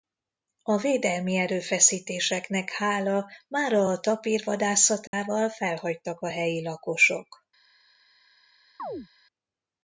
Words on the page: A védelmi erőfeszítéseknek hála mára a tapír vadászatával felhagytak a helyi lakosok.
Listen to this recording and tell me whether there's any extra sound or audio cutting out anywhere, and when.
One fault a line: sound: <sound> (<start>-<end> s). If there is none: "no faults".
sound: dropout (5.1-5.1 s)
sound: chirp (8.8-9.1 s)